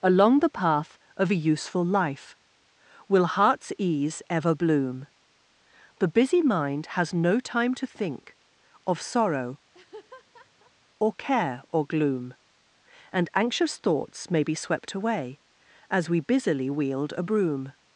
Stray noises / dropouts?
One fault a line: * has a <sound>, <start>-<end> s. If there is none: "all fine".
* has a laugh, 9.7-10.7 s